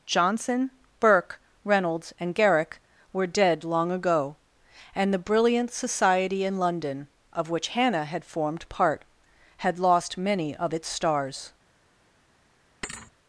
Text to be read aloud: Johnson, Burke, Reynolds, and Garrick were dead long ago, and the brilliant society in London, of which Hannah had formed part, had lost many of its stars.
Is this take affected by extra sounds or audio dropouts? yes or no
yes